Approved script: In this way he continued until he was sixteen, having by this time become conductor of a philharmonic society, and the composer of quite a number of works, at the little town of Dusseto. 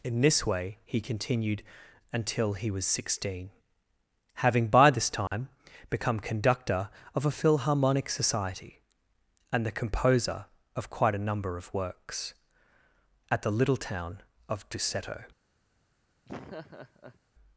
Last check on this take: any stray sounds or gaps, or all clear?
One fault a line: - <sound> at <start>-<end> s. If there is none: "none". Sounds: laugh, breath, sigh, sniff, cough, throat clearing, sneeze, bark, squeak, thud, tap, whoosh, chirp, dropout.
- dropout at 5.3-5.3 s
- laugh at 16.3-17.2 s